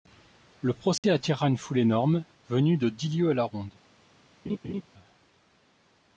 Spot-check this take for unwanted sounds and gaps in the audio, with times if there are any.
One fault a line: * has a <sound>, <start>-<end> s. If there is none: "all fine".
* has a dropout, 1.0-1.0 s
* has a laugh, 4.5-4.8 s